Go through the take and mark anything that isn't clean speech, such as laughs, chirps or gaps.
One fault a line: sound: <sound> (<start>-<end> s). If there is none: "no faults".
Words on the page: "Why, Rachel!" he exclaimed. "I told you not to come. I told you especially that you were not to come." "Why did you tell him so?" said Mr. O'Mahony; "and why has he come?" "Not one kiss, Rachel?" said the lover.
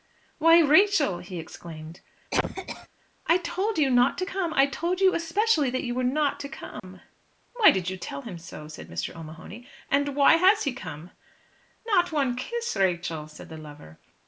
sound: cough (2.3-2.9 s)
sound: dropout (6.8-6.8 s)